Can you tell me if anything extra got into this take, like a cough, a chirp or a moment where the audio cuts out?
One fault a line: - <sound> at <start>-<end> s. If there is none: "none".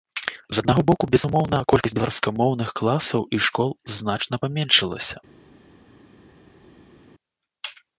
none